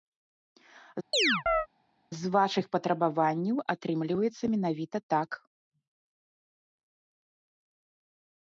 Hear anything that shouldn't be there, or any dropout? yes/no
yes